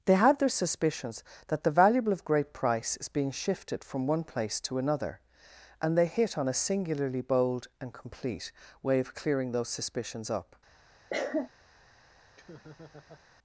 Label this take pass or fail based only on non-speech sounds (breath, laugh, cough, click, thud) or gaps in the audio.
fail